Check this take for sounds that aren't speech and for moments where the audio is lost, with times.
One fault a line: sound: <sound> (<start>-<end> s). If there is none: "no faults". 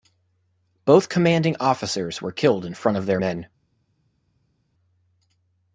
no faults